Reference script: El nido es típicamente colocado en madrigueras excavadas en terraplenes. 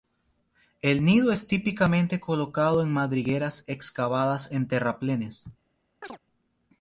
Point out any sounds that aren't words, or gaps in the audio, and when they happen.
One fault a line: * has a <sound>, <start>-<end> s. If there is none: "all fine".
* has a chirp, 6.0-6.2 s